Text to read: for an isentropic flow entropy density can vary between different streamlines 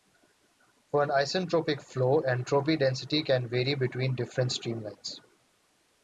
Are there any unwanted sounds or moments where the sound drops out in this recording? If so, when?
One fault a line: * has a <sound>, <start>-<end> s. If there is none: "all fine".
all fine